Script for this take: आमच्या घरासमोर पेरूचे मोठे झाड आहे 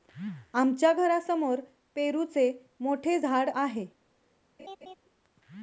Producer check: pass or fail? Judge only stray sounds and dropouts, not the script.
fail